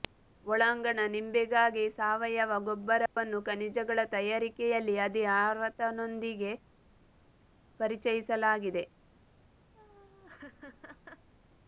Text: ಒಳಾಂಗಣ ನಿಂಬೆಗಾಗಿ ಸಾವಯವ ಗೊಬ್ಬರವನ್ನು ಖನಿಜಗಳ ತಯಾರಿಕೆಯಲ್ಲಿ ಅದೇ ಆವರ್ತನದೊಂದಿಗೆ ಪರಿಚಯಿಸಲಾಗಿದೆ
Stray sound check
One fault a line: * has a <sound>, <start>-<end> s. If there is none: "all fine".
* has a dropout, 3.1-3.2 s
* has a laugh, 9.7-11.3 s